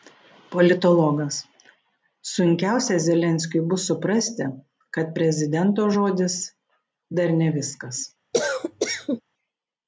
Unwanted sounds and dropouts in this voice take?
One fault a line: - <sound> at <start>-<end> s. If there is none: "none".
- cough at 8.3-9.2 s